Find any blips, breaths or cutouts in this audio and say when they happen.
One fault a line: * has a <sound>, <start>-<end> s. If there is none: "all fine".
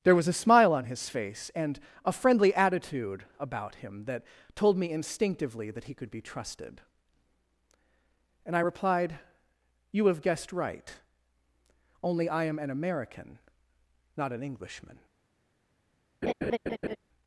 * has a laugh, 16.2-17.0 s